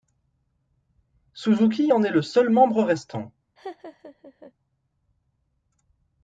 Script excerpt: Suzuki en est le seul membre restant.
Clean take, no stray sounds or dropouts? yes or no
no